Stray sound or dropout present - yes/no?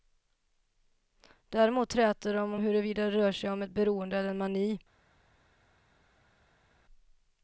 no